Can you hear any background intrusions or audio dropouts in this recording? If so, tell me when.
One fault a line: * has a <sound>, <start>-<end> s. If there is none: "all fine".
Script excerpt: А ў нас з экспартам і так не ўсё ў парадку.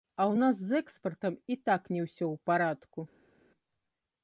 all fine